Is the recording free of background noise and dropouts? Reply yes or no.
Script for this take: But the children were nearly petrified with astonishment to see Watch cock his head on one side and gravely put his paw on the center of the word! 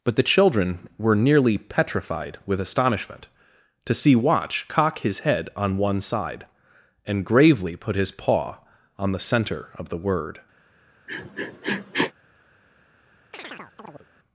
no